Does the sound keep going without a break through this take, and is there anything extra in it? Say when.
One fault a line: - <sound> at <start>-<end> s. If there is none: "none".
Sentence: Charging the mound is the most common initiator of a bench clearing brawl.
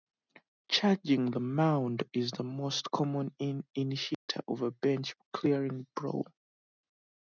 - dropout at 4.1-4.3 s